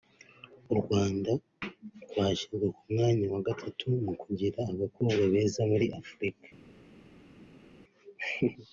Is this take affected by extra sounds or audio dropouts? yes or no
no